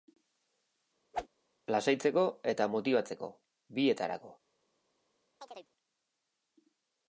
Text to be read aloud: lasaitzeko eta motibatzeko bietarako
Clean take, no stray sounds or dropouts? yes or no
no